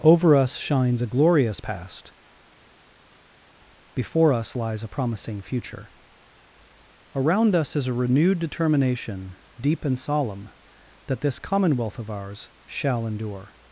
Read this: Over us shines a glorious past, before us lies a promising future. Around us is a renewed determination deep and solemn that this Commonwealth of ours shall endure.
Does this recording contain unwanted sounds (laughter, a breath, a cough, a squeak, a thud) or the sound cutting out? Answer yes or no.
no